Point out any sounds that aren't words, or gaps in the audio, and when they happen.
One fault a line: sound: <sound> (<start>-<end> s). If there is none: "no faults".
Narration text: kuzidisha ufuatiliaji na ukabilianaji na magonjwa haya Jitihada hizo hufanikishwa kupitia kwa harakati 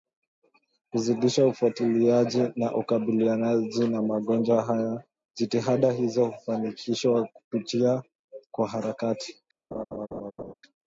sound: laugh (9.7-10.5 s)